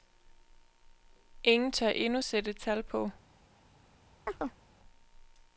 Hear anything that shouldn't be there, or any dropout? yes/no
yes